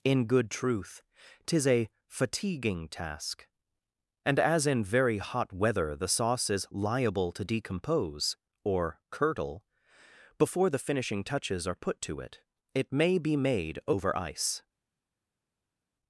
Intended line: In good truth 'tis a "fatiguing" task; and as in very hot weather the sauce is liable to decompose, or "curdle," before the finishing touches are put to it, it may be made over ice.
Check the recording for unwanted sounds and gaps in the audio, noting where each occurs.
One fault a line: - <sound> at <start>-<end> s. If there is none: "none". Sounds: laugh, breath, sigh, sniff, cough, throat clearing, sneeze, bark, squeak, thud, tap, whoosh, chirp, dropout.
none